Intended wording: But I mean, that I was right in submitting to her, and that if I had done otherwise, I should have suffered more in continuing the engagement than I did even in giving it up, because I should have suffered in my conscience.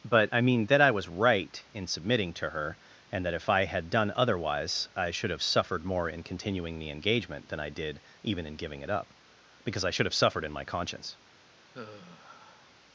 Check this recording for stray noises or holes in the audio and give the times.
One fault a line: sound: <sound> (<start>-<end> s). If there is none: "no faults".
sound: sigh (11.7-12.7 s)